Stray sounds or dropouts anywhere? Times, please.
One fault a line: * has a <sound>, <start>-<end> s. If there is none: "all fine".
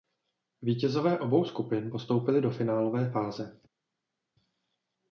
all fine